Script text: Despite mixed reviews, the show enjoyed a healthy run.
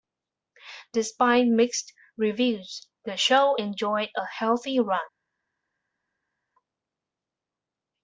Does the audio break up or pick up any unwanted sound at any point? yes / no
no